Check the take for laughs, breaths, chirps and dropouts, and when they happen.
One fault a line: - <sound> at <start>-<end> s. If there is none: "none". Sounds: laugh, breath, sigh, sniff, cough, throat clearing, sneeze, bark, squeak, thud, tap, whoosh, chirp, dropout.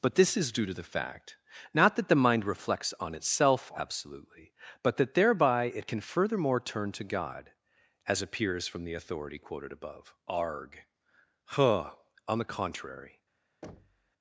- thud at 13.6-14.1 s